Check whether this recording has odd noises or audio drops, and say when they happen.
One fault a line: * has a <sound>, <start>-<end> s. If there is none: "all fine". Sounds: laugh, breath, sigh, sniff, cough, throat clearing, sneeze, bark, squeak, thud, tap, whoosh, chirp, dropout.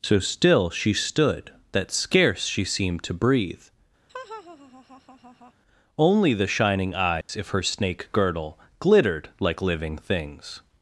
* has a laugh, 4.1-5.5 s
* has a dropout, 7.2-7.3 s